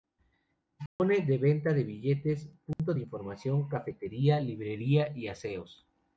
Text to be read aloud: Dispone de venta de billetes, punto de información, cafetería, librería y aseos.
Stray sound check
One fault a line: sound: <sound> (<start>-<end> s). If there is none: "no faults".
sound: dropout (0.9-1.0 s)
sound: dropout (2.7-2.8 s)